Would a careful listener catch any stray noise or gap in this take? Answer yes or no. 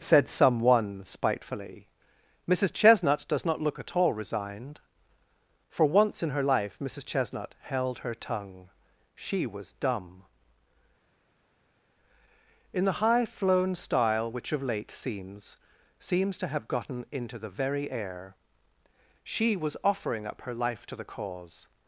no